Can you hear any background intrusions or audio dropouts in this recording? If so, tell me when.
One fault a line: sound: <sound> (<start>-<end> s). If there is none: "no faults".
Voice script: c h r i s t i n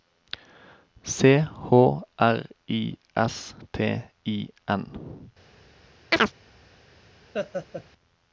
sound: chirp (6.1-6.3 s)
sound: laugh (7.3-7.8 s)